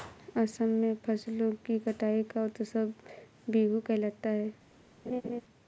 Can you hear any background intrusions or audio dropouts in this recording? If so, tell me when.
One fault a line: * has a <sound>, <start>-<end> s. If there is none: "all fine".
* has a laugh, 5.1-5.4 s